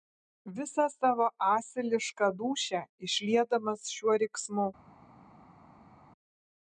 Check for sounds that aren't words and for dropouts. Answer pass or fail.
pass